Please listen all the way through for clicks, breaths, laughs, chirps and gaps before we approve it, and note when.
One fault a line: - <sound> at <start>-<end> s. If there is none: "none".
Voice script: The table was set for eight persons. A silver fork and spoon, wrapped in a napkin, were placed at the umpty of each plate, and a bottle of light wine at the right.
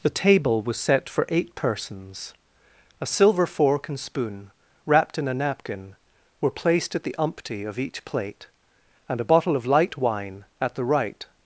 none